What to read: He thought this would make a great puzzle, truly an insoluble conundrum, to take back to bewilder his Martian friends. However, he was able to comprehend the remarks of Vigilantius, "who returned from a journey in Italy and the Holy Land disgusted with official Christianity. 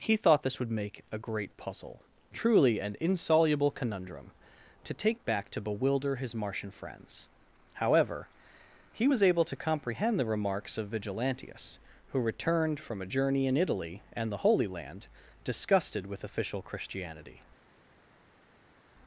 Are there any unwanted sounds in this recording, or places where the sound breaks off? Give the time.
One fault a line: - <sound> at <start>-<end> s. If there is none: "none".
none